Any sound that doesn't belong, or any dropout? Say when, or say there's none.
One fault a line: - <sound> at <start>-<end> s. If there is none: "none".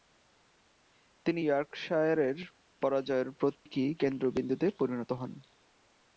- dropout at 3.5-3.7 s